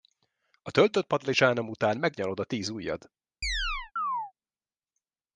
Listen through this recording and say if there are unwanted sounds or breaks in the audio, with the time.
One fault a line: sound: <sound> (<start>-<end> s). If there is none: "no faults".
sound: chirp (3.4-4.3 s)